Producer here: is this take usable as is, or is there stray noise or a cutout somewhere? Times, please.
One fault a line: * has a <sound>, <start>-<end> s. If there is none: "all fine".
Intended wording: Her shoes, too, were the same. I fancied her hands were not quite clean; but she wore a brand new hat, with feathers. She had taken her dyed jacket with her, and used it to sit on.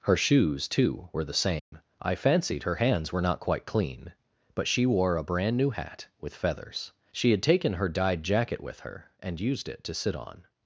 * has a dropout, 1.6-1.7 s